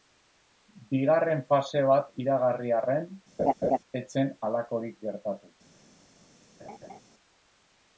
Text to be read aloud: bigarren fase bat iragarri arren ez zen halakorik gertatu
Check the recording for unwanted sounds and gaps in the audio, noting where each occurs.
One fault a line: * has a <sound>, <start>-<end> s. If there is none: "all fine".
* has a laugh, 3.4-3.8 s
* has a laugh, 6.6-7.0 s